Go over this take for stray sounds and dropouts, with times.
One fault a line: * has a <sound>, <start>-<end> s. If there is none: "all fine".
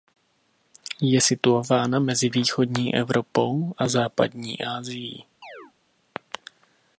* has a chirp, 5.4-5.7 s